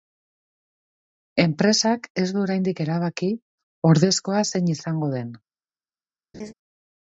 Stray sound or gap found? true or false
true